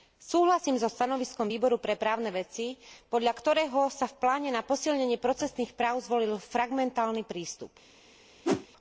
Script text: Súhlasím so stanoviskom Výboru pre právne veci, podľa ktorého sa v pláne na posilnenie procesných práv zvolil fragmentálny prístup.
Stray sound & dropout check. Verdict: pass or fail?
fail